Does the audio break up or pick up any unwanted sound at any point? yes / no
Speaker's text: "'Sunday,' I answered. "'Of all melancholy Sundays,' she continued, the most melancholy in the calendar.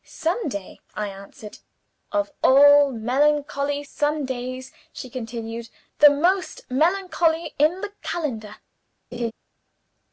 yes